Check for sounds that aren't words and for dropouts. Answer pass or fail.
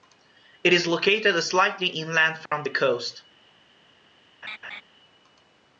fail